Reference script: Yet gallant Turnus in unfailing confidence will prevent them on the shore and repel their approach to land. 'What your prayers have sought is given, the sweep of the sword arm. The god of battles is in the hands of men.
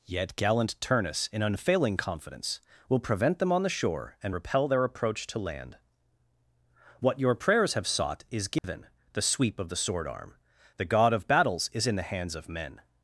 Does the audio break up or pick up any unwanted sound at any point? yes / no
yes